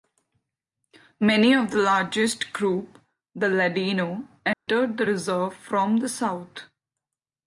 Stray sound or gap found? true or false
true